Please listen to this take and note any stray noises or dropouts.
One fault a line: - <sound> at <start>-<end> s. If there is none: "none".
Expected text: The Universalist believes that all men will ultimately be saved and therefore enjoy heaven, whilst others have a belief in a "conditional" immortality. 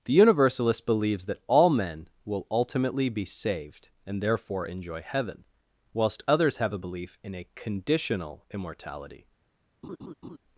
- laugh at 9.8-10.4 s